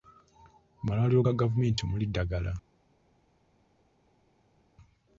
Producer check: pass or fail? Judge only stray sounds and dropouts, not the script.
pass